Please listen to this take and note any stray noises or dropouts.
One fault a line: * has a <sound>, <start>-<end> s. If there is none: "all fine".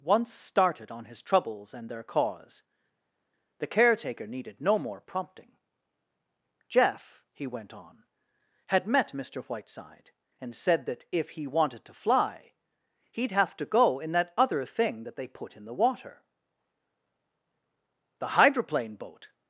all fine